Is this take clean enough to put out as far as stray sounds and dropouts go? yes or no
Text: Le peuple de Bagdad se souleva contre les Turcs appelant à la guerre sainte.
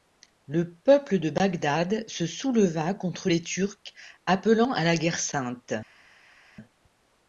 yes